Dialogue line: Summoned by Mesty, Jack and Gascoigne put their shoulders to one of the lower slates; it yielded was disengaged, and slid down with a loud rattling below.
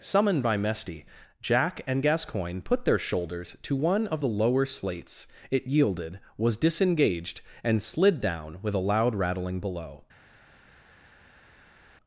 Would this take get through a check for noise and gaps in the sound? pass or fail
pass